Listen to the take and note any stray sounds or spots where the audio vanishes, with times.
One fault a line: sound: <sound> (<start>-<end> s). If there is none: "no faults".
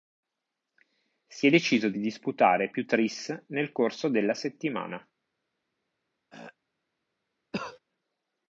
sound: throat clearing (6.3-6.6 s)
sound: cough (7.5-7.8 s)